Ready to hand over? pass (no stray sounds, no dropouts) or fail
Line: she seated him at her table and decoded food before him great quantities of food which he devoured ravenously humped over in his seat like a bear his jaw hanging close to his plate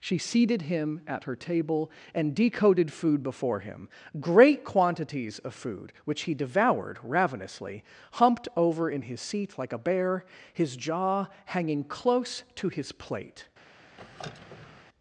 fail